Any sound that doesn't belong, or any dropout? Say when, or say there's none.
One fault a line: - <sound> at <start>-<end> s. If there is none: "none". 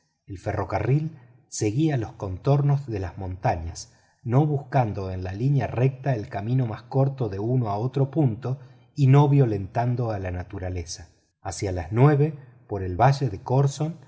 none